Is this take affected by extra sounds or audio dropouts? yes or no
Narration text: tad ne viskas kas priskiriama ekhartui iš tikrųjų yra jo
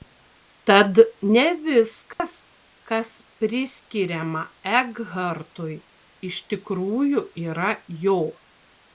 yes